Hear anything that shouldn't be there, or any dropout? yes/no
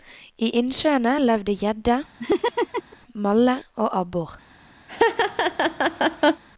yes